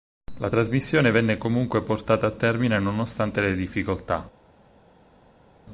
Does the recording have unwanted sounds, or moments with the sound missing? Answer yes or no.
no